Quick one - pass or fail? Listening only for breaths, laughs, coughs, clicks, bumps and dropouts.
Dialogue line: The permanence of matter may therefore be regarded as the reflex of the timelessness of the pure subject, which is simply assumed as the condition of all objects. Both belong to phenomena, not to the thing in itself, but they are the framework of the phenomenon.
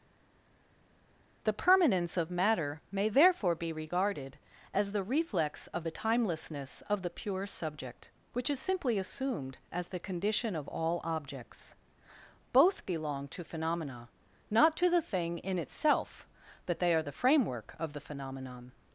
pass